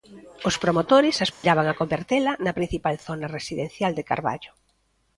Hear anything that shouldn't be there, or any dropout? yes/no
yes